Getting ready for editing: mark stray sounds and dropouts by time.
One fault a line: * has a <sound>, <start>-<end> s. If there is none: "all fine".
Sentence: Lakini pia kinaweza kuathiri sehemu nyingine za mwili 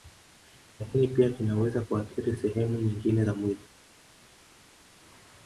all fine